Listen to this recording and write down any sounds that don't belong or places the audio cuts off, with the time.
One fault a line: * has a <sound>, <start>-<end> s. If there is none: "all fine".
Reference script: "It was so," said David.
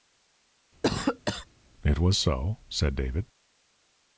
* has a cough, 0.8-1.5 s